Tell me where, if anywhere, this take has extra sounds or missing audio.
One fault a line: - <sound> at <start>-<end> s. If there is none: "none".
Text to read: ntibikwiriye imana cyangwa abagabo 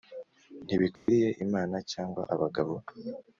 - dropout at 1.0-1.1 s